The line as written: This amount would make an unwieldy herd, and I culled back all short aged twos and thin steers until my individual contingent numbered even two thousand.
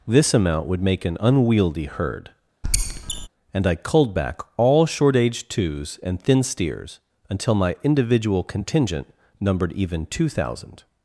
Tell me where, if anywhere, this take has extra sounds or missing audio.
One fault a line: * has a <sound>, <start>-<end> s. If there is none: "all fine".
* has a squeak, 2.6-3.3 s